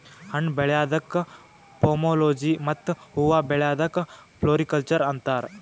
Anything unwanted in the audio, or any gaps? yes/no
no